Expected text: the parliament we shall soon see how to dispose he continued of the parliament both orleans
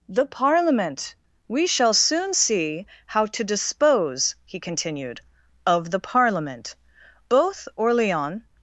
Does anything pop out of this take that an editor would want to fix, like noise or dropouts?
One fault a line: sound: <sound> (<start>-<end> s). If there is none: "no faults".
no faults